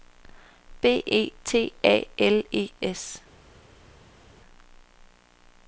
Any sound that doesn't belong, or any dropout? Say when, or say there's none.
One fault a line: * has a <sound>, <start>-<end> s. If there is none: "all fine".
all fine